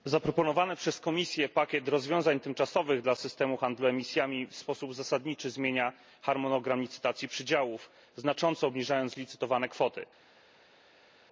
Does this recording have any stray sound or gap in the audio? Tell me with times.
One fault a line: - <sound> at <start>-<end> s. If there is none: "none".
none